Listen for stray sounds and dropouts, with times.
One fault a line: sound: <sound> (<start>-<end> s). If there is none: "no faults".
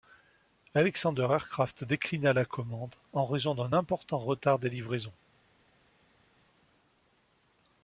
no faults